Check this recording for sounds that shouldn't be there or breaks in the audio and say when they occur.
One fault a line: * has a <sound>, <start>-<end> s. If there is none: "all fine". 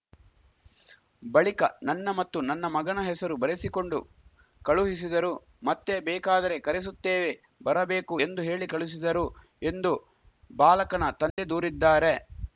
* has a dropout, 11.3-11.4 s